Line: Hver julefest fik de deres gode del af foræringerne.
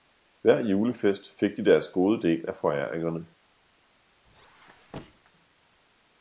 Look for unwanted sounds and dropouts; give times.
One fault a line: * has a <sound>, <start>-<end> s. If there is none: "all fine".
* has a squeak, 4.3-5.3 s